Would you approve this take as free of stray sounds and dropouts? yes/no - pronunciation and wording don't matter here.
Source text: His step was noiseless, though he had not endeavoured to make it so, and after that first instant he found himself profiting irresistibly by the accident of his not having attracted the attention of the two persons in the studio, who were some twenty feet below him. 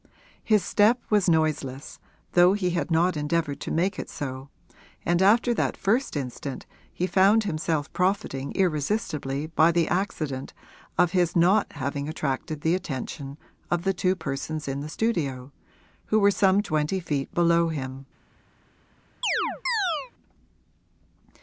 no